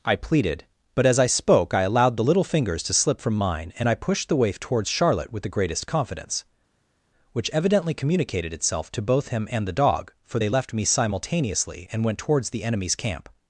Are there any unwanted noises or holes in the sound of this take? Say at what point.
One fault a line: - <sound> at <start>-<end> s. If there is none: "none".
none